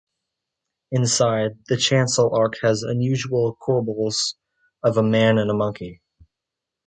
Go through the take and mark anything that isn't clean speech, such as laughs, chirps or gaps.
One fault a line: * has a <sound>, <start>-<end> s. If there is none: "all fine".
all fine